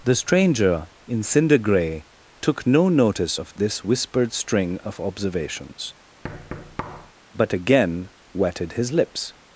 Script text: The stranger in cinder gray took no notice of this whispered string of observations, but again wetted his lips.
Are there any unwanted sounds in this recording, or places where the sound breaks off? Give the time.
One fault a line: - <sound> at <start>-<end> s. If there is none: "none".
- thud at 6.2-7.1 s